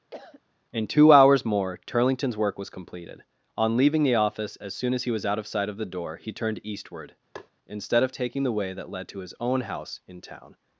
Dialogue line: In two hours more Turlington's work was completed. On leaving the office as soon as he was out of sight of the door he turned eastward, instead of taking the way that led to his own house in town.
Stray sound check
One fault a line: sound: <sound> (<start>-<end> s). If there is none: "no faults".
sound: cough (0.1-0.4 s)
sound: tap (7.4-7.5 s)